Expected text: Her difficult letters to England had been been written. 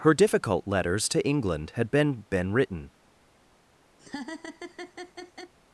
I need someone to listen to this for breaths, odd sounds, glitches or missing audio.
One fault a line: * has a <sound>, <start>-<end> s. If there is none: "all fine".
* has a laugh, 4.0-5.5 s